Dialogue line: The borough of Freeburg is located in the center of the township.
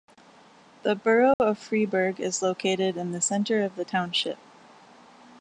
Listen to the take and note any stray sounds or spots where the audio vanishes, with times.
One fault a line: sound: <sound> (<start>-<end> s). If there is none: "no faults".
sound: dropout (1.3-1.4 s)